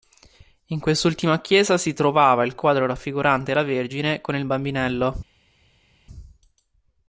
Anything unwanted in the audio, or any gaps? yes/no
no